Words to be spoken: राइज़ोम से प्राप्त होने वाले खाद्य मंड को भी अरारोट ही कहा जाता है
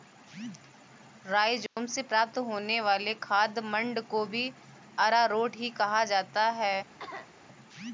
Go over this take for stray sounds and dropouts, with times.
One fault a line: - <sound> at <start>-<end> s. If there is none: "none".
- dropout at 1.7-1.8 s
- cough at 7.0-7.3 s